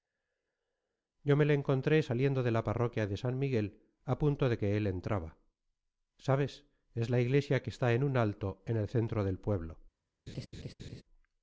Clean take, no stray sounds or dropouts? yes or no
no